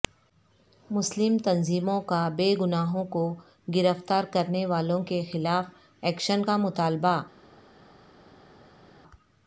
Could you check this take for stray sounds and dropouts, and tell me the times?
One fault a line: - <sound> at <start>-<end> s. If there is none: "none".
none